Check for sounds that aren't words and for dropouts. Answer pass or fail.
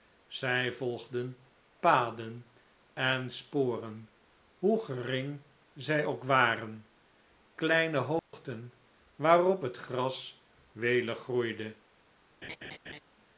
fail